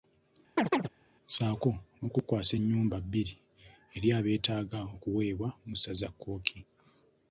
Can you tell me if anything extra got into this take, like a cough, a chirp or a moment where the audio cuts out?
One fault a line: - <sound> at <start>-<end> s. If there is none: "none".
- chirp at 0.6-0.9 s